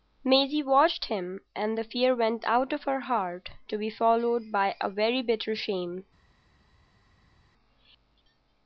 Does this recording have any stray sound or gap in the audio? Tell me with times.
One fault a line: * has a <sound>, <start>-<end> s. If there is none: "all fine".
all fine